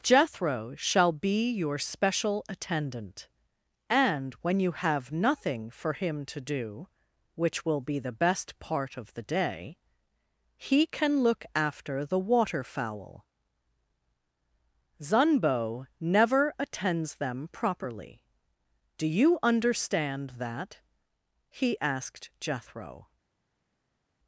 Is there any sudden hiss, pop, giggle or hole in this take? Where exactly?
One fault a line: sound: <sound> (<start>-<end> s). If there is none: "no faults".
no faults